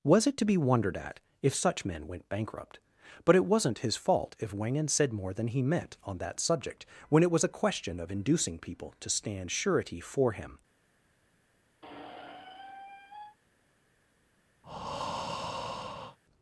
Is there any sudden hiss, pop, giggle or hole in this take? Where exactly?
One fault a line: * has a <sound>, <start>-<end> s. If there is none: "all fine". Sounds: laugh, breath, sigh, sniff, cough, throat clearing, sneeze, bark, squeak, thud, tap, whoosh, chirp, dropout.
* has a squeak, 11.8-13.4 s
* has a breath, 14.6-16.2 s